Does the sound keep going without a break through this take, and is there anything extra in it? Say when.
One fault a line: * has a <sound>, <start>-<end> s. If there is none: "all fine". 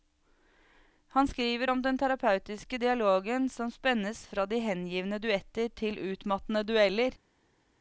all fine